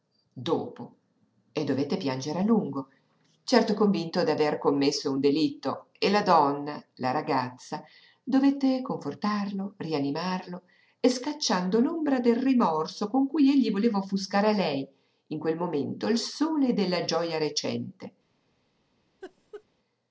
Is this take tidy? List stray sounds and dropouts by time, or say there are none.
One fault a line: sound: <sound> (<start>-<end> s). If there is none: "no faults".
sound: laugh (19.2-19.6 s)